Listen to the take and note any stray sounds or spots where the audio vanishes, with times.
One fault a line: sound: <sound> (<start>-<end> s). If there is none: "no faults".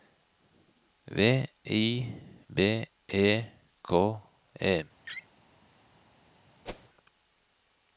sound: laugh (5.0-5.3 s)
sound: whoosh (6.7-6.9 s)